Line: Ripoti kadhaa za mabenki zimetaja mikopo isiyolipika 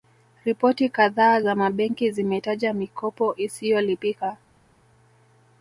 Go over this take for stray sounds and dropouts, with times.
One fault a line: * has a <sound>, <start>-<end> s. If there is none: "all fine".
all fine